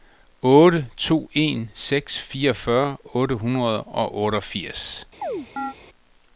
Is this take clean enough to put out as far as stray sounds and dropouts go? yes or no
no